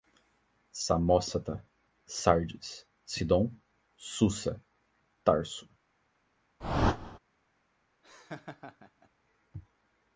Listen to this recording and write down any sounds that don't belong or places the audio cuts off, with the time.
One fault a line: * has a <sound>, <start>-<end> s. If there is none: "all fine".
* has a whoosh, 6.6-7.2 s
* has a laugh, 8.0-9.1 s